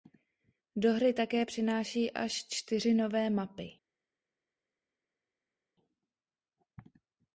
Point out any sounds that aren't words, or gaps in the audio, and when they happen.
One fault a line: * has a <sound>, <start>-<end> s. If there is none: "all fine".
all fine